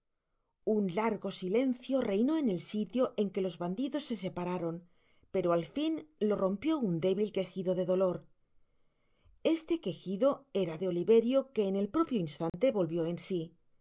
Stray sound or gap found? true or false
true